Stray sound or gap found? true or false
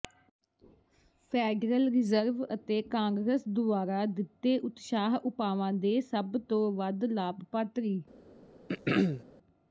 true